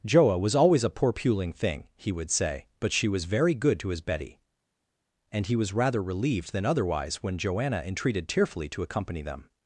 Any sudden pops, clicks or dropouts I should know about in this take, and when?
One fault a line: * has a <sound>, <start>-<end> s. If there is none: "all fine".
all fine